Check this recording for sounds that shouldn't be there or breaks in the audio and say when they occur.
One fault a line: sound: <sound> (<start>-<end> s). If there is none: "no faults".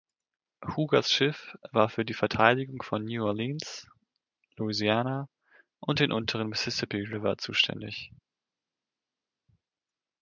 no faults